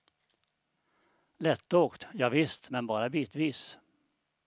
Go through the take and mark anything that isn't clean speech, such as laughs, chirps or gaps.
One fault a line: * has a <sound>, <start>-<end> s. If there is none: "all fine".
all fine